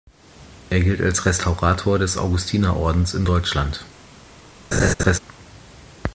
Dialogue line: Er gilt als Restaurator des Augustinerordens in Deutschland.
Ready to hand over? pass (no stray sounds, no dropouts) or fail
fail